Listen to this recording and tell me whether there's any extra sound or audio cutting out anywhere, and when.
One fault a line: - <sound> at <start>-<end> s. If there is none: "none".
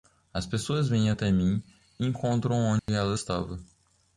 - dropout at 2.8-2.9 s